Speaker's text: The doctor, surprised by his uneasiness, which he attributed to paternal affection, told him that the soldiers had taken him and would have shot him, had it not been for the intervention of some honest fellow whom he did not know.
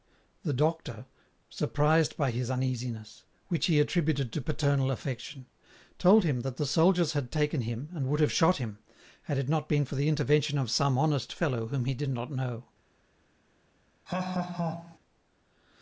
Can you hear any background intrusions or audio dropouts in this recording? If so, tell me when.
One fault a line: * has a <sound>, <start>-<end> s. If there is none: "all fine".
* has a laugh, 14.1-15.0 s